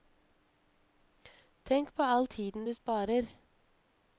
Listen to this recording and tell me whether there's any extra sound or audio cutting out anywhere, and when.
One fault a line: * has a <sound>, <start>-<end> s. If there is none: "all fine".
all fine